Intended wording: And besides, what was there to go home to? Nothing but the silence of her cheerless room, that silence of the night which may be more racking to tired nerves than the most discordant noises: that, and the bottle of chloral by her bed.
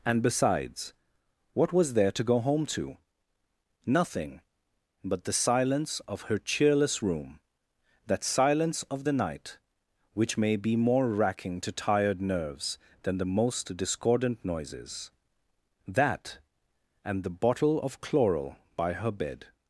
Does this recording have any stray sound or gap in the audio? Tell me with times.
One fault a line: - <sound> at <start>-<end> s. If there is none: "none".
none